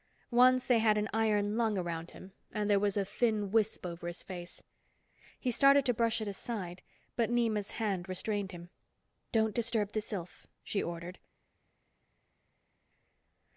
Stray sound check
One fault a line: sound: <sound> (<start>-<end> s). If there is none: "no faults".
no faults